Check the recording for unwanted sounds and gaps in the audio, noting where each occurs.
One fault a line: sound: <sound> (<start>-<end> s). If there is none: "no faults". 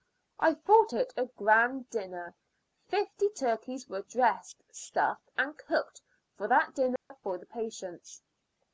sound: dropout (7.0-7.1 s)